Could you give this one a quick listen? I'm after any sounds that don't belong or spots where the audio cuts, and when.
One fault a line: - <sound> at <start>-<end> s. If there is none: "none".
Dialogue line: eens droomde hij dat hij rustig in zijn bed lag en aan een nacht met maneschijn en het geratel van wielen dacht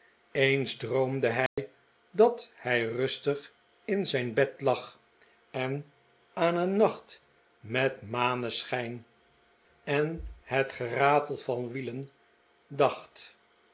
- dropout at 1.5-1.6 s